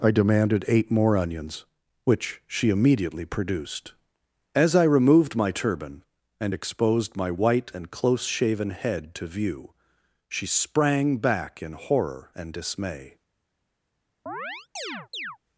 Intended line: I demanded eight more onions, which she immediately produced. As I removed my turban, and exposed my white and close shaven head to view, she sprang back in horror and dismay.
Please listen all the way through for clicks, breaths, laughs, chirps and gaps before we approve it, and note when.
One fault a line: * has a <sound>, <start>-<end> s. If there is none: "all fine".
* has a chirp, 14.3-15.4 s